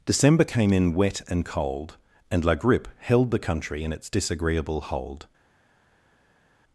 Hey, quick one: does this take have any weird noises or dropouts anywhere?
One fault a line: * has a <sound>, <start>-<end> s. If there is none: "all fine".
all fine